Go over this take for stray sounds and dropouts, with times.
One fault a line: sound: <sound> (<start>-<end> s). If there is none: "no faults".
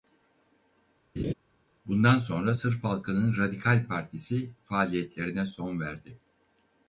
sound: laugh (1.2-1.3 s)